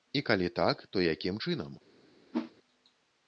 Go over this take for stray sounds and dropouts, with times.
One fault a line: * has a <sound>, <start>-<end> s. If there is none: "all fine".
* has a whoosh, 2.3-2.5 s